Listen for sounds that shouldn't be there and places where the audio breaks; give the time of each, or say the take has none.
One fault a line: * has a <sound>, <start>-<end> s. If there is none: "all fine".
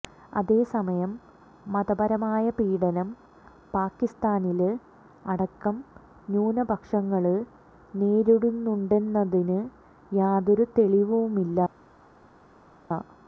all fine